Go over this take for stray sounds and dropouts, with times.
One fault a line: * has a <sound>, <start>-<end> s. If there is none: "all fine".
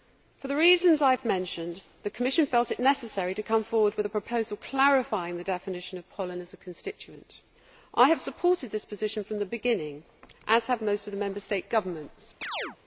* has a chirp, 12.4-12.8 s